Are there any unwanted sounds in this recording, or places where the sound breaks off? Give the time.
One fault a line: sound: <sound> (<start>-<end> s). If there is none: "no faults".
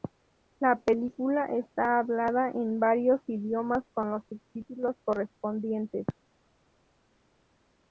no faults